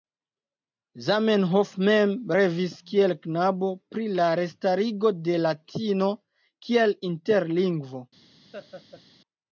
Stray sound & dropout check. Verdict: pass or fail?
fail